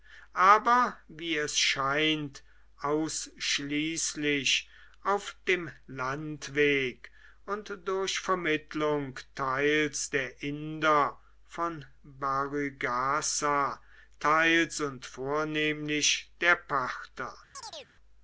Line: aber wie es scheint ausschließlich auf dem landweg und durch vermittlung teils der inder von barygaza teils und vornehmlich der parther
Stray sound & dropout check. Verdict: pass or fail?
fail